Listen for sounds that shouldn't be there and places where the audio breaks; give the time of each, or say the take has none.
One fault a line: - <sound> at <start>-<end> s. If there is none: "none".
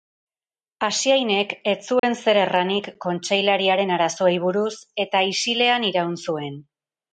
- dropout at 2.0-2.0 s